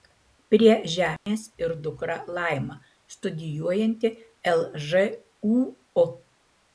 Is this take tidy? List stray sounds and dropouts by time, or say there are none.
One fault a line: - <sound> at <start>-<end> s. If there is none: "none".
- dropout at 1.2-1.3 s